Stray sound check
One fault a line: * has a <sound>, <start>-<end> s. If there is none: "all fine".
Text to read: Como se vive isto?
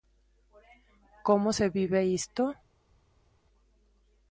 all fine